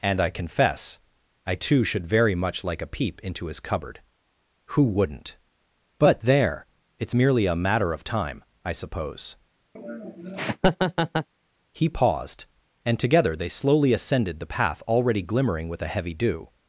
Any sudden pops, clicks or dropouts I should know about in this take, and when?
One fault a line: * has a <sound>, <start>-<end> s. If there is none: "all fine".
* has a laugh, 9.8-11.3 s